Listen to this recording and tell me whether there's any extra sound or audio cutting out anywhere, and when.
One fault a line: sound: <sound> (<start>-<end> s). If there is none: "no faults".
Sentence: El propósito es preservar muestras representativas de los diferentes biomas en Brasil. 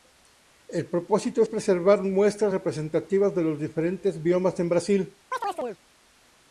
sound: chirp (5.3-5.8 s)